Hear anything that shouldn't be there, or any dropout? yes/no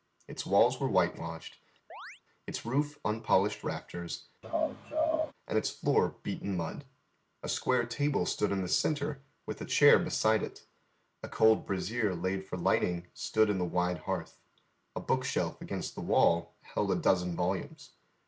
yes